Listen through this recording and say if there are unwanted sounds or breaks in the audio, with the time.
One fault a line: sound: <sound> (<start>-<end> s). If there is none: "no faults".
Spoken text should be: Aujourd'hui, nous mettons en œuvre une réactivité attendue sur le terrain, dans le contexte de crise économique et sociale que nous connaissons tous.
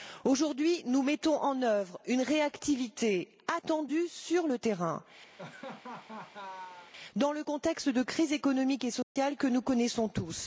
sound: laugh (5.4-6.9 s)
sound: dropout (9.0-9.2 s)